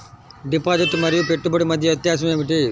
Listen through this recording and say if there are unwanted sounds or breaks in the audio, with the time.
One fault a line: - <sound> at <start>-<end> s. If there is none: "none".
none